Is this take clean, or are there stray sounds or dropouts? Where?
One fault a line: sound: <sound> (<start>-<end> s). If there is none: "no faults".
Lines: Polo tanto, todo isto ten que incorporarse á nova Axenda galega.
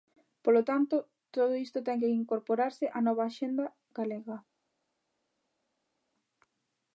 no faults